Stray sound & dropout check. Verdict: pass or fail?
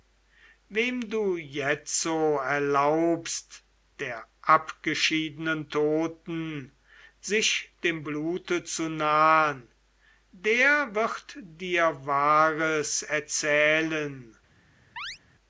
fail